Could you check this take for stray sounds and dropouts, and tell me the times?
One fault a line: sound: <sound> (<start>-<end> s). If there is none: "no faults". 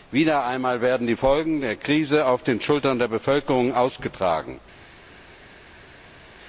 no faults